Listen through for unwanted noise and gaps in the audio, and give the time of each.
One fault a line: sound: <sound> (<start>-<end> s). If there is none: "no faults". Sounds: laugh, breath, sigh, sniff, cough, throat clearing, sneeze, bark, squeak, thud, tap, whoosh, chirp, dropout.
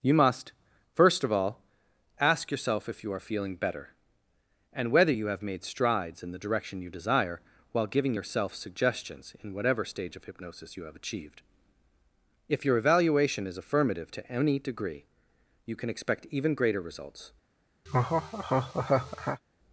sound: laugh (17.9-19.4 s)